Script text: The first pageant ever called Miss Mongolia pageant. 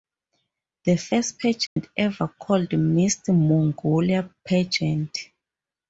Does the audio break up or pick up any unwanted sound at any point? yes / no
yes